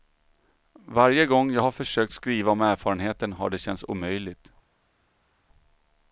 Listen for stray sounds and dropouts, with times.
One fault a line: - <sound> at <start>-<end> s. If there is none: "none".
none